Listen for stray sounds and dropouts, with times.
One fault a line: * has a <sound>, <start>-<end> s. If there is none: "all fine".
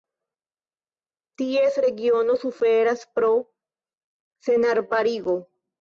all fine